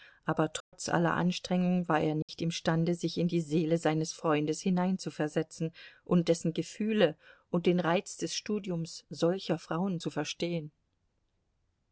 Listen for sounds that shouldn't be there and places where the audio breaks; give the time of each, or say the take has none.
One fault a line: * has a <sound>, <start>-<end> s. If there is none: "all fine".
* has a dropout, 0.6-0.7 s
* has a dropout, 2.2-2.3 s